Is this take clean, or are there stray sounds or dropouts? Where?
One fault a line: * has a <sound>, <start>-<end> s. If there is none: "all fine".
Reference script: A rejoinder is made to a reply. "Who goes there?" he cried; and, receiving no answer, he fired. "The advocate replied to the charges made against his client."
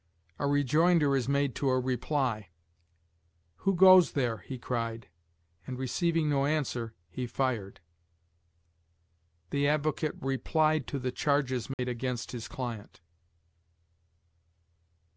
* has a dropout, 11.7-11.8 s